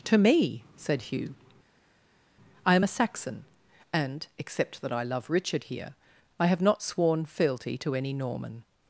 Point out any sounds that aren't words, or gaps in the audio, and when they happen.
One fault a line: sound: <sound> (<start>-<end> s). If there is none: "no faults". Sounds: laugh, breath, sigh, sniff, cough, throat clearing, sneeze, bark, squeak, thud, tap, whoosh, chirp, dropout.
no faults